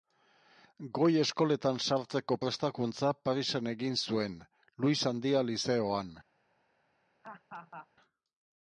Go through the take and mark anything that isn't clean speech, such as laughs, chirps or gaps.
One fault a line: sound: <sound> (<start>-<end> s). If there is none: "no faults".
sound: laugh (7.2-7.9 s)